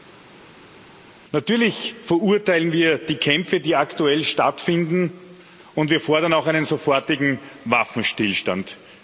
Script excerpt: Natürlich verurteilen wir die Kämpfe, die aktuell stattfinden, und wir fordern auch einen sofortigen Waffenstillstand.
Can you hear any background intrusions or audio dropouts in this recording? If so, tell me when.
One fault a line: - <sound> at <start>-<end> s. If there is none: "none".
none